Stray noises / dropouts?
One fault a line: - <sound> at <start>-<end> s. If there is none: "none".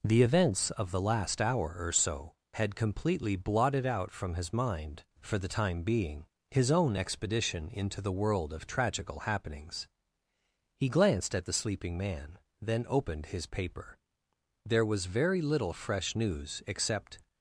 none